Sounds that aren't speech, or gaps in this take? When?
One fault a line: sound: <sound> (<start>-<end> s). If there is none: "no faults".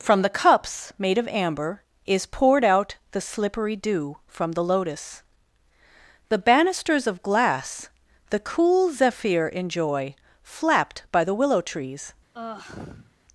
sound: sigh (12.3-13.1 s)